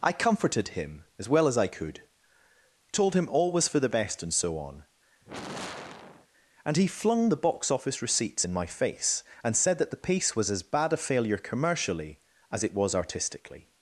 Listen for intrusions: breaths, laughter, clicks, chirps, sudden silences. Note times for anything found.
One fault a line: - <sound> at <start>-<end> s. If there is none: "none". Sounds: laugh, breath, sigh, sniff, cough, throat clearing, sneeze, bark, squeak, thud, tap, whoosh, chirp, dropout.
- sigh at 5.2-6.3 s